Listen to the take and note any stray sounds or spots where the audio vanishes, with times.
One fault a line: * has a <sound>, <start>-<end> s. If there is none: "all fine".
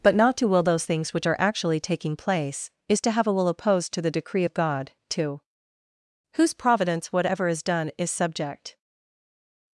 all fine